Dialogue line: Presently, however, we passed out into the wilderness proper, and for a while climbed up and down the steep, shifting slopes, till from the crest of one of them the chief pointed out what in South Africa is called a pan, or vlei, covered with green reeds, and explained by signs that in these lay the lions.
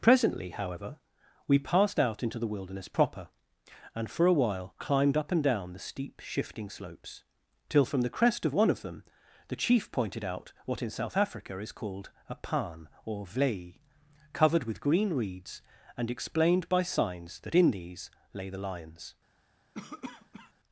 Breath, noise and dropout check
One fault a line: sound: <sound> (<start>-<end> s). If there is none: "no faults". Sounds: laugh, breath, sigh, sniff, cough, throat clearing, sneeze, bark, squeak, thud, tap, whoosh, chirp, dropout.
sound: cough (19.7-20.5 s)